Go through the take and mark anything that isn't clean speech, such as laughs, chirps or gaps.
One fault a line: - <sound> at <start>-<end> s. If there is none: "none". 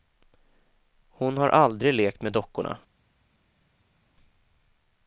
none